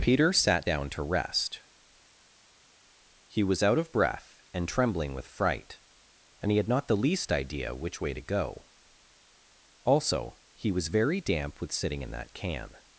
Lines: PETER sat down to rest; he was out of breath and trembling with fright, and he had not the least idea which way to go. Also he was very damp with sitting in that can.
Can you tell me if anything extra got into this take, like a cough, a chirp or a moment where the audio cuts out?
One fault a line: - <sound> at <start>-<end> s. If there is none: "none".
none